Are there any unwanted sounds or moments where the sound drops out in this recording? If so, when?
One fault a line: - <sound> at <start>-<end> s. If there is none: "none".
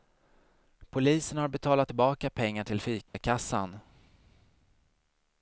- dropout at 3.1-3.1 s